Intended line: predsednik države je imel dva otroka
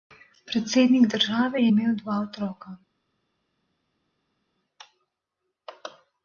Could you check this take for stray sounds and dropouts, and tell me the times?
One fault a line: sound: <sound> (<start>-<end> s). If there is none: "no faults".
no faults